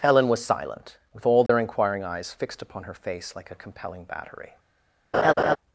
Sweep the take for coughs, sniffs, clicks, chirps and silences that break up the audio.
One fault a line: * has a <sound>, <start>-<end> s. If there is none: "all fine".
* has a dropout, 1.5-1.5 s
* has a laugh, 5.1-5.6 s